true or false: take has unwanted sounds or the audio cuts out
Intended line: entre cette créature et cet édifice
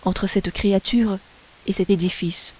false